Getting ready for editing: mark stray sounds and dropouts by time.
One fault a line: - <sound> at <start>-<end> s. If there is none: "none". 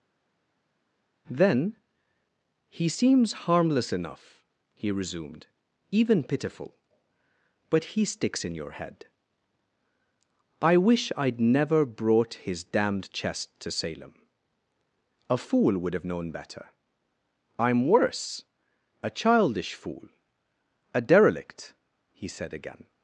none